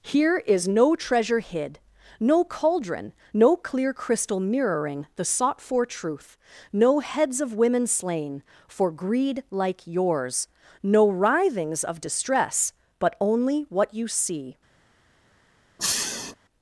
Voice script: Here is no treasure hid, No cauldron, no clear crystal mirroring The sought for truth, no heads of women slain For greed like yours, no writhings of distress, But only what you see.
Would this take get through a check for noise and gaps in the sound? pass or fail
fail